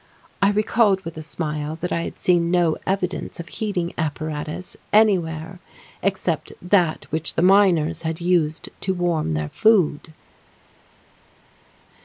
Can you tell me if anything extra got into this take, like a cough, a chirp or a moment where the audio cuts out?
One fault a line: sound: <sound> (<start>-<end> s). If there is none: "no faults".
no faults